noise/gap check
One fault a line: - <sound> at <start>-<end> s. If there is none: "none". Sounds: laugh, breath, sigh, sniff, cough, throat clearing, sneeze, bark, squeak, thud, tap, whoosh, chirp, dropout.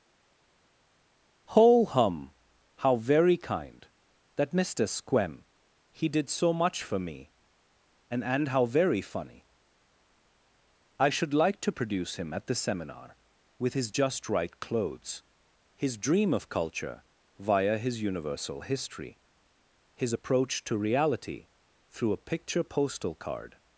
none